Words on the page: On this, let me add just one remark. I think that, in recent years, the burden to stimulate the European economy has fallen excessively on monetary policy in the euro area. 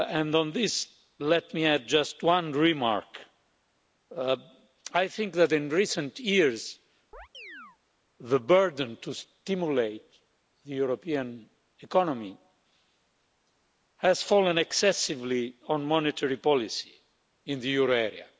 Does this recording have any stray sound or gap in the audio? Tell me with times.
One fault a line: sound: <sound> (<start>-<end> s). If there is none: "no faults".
sound: chirp (7.1-7.8 s)